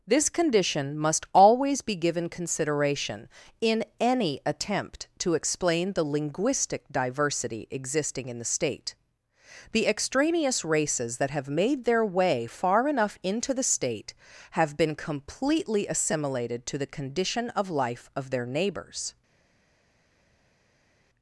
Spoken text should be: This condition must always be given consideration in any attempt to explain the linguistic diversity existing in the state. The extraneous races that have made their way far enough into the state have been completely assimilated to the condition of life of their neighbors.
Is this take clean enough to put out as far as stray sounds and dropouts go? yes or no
yes